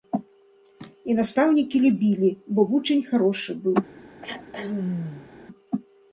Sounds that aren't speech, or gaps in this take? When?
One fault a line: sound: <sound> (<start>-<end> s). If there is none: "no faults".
sound: throat clearing (4.2-5.3 s)